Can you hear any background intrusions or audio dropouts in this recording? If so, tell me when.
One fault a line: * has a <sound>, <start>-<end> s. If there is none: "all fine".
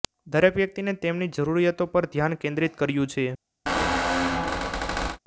* has a squeak, 3.7-5.2 s